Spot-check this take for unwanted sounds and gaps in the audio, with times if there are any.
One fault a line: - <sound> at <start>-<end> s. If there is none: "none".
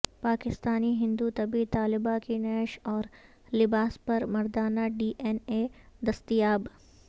none